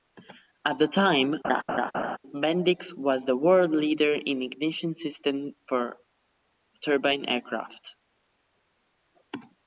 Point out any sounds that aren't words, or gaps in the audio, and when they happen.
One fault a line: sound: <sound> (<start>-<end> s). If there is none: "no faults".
sound: laugh (1.4-2.2 s)